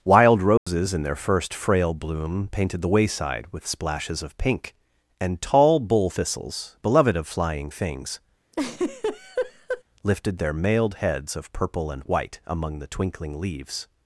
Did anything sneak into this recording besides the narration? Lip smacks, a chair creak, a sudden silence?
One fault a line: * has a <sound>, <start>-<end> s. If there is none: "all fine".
* has a dropout, 0.6-0.7 s
* has a laugh, 8.5-9.8 s